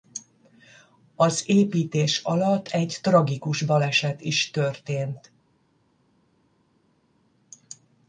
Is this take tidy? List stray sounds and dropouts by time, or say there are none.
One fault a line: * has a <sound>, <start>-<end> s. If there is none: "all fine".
all fine